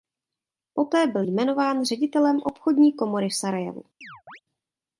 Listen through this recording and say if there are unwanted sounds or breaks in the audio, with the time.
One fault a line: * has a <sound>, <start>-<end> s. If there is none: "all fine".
* has a chirp, 4.0-4.4 s